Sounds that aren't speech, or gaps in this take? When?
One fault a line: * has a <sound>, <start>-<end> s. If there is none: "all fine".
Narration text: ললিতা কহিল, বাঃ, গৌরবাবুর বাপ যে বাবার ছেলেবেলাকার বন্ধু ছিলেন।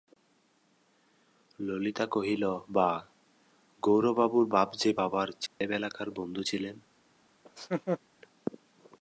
* has a dropout, 5.5-5.6 s
* has a laugh, 7.4-8.0 s